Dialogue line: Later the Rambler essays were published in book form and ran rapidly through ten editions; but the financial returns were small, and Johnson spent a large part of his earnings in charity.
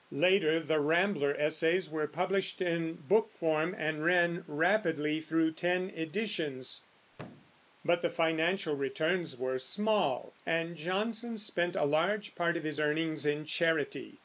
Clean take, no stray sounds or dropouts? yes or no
no